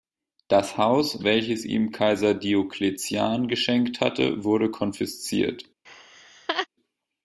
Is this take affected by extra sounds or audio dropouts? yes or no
yes